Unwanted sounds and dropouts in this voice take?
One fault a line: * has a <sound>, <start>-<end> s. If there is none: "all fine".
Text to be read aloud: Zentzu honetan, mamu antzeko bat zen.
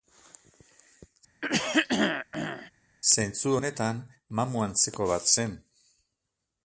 * has a throat clearing, 1.4-2.7 s